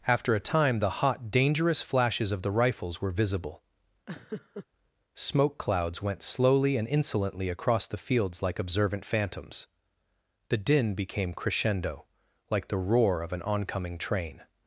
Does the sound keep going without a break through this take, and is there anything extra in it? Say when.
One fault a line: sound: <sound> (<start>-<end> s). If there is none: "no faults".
sound: laugh (4.1-4.7 s)